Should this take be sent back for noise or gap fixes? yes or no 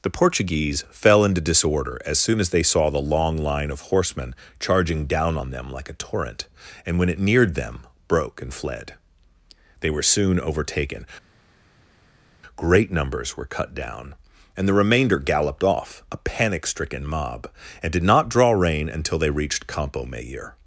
no